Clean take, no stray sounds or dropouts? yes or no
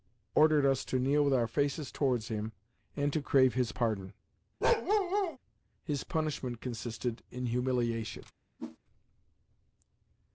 no